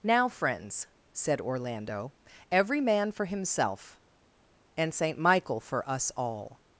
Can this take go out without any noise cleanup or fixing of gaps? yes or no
yes